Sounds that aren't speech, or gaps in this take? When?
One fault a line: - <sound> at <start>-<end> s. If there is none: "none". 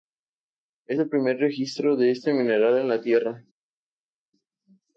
none